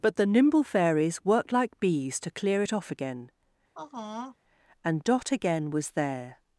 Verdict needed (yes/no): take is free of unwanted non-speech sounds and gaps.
no